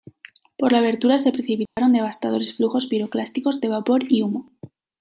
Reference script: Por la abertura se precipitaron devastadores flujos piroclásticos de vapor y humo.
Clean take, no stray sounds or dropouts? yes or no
no